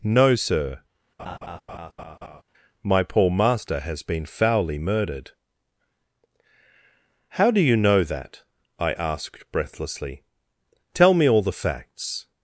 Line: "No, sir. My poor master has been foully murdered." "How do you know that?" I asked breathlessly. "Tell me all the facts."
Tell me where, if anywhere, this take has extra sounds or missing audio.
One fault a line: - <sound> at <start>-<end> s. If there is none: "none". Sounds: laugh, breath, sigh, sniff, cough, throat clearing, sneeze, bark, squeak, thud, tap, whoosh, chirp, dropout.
- laugh at 1.2-2.4 s